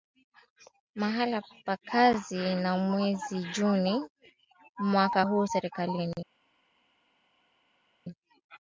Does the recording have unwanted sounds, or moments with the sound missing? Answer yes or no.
no